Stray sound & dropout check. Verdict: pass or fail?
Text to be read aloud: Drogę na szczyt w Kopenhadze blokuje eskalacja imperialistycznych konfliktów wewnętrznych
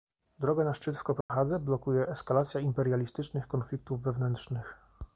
fail